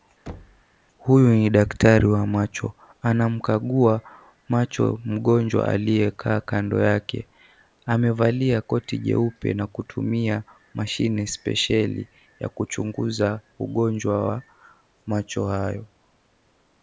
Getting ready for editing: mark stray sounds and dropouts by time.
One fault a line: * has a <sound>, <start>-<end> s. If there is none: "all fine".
* has a thud, 0.3-0.6 s